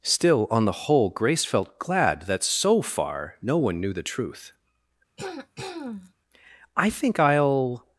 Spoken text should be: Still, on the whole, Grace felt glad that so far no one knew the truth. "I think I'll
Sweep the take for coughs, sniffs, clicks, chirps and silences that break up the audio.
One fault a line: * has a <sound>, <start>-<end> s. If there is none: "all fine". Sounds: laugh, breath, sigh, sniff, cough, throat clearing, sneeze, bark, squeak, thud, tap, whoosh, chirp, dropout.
* has a throat clearing, 5.2-6.1 s